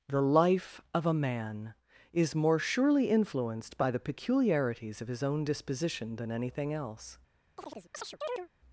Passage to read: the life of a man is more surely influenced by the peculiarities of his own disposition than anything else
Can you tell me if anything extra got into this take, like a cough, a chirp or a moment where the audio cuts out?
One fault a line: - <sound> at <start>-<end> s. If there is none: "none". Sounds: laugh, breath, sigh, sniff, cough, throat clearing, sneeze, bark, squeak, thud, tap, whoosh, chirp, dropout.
- chirp at 7.6-8.5 s